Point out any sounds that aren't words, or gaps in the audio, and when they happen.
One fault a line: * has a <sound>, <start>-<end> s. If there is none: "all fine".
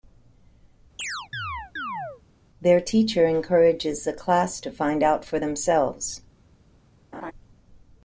* has a chirp, 1.0-2.2 s
* has a laugh, 7.1-7.3 s